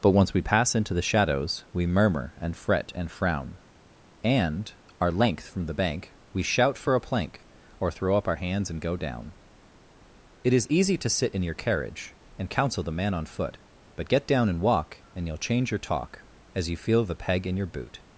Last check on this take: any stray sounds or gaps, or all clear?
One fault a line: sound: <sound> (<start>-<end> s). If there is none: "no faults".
no faults